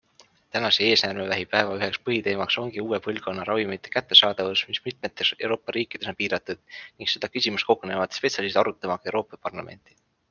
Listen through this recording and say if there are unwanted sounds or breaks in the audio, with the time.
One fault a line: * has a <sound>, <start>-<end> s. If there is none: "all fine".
all fine